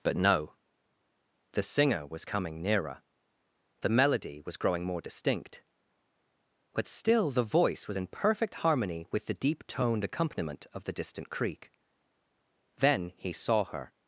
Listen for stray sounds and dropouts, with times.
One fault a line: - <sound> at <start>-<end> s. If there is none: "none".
none